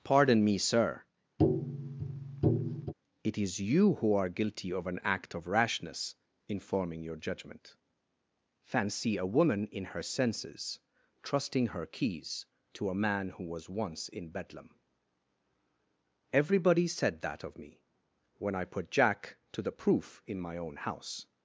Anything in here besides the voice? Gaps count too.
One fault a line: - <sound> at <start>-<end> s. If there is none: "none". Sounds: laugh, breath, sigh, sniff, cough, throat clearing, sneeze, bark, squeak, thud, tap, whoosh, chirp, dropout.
- tap at 1.4-2.9 s